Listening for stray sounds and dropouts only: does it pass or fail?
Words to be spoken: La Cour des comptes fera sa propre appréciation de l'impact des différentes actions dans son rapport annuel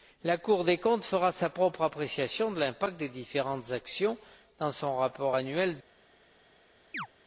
fail